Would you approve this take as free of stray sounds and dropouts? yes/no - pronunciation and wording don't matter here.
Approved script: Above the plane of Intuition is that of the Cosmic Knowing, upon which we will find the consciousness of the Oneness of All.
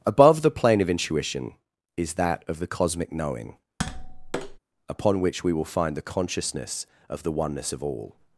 no